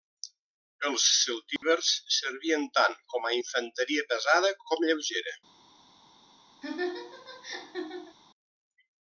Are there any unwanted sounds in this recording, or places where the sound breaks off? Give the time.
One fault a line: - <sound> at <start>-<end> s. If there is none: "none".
- dropout at 1.6-1.6 s
- laugh at 6.6-8.2 s